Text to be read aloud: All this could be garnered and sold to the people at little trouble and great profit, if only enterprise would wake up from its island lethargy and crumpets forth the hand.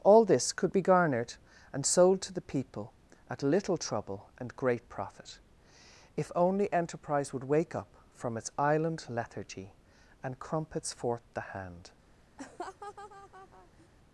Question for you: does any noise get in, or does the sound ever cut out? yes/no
yes